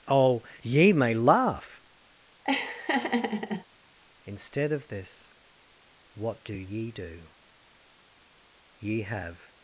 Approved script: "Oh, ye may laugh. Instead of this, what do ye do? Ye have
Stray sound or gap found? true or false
true